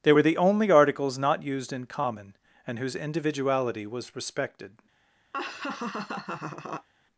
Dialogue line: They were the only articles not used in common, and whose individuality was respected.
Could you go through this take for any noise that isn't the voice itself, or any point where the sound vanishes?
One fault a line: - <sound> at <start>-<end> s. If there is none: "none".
- laugh at 5.3-6.9 s